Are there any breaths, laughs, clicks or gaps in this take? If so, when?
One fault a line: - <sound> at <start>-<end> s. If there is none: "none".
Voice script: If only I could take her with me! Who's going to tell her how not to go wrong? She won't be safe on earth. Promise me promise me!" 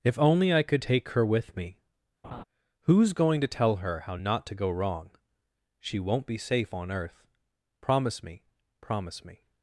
- laugh at 2.2-2.4 s